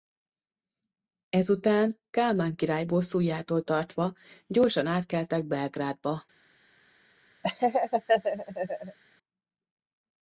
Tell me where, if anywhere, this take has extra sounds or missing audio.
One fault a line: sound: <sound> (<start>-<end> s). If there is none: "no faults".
sound: laugh (7.4-9.0 s)